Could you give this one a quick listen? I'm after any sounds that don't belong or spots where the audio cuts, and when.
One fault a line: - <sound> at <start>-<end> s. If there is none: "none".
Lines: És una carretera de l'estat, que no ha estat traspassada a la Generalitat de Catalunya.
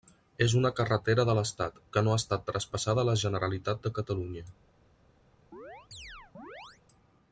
- chirp at 5.5-6.8 s